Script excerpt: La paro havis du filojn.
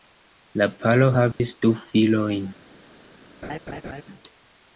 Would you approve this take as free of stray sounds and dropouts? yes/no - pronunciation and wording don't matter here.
no